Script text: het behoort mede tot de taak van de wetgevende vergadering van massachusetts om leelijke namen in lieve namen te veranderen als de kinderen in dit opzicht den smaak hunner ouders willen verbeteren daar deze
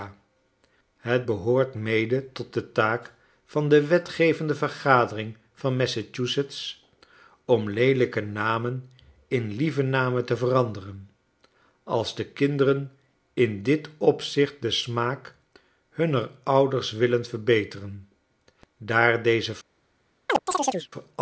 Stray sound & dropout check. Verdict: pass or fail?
fail